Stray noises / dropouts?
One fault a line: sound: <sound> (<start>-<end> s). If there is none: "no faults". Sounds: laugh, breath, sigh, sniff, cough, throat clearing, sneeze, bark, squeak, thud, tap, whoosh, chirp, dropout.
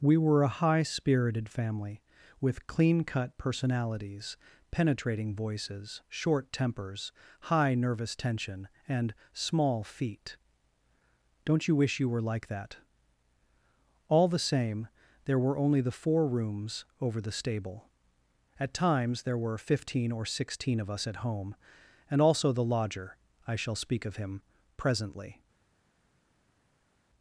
no faults